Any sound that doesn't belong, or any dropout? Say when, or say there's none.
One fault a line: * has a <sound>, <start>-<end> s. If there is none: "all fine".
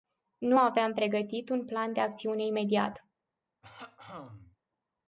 * has a throat clearing, 3.6-4.6 s